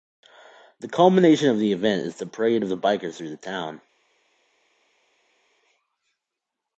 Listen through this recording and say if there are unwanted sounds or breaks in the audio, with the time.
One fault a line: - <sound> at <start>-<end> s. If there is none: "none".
none